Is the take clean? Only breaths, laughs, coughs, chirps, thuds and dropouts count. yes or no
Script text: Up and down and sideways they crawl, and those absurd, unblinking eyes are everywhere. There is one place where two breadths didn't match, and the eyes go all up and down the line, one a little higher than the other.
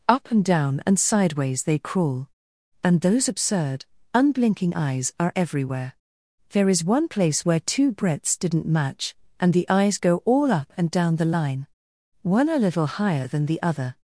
yes